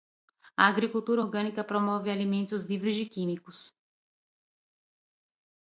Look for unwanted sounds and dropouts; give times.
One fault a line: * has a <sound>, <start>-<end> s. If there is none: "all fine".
all fine